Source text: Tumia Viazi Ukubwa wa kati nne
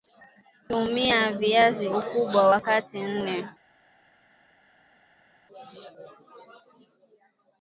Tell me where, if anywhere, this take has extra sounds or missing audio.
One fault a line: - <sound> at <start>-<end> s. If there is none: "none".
none